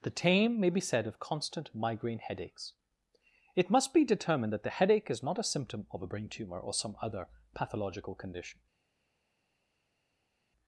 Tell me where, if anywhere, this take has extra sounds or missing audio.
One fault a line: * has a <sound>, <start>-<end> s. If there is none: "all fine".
all fine